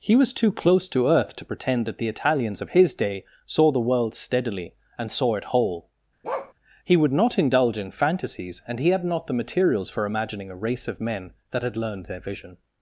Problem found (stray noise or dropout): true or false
true